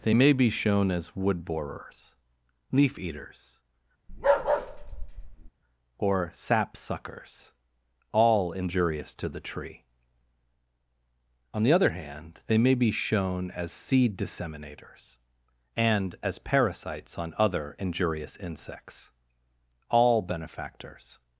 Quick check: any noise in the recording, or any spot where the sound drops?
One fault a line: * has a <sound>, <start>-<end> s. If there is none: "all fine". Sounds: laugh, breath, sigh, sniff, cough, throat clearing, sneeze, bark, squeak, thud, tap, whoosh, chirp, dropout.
* has a bark, 4.1-5.5 s